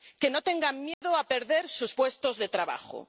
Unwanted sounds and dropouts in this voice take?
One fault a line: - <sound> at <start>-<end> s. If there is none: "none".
- dropout at 0.9-1.0 s